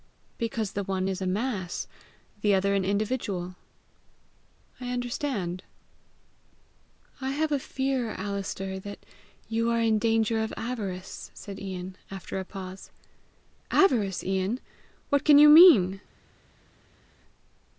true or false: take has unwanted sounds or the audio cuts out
false